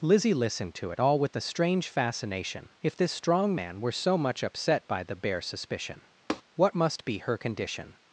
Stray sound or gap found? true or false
true